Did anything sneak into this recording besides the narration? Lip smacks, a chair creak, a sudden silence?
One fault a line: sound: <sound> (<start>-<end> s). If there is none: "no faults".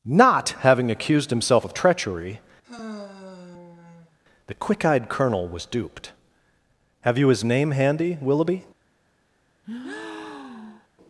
sound: sigh (2.6-4.2 s)
sound: breath (9.6-10.9 s)